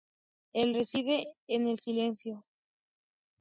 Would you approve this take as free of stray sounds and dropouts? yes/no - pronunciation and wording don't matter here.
yes